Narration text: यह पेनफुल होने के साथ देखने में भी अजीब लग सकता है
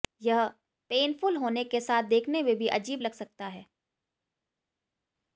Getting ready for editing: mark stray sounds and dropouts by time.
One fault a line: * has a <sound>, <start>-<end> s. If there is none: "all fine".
all fine